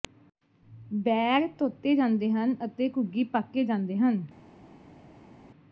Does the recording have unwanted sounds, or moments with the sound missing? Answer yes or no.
no